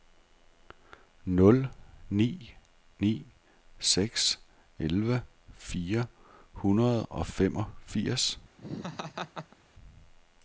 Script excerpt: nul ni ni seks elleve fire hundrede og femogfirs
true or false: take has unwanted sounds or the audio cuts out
true